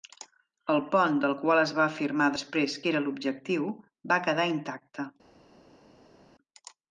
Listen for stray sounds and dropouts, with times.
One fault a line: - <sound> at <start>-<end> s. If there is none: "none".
none